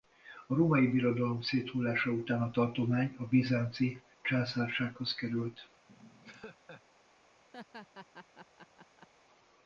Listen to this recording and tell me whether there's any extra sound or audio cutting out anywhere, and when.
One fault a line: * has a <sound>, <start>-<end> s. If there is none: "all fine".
* has a laugh, 5.9-6.8 s
* has a laugh, 7.5-9.1 s